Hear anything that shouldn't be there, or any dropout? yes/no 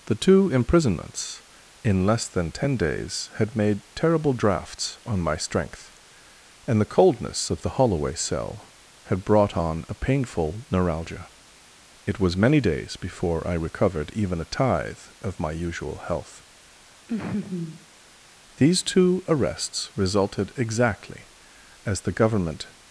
yes